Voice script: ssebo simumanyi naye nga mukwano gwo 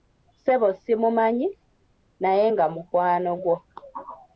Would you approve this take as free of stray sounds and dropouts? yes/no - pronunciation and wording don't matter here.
yes